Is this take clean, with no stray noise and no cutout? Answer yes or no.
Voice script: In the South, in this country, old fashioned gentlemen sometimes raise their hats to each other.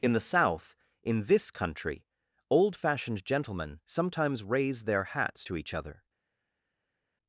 yes